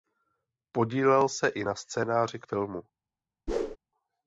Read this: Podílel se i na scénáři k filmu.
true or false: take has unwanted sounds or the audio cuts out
true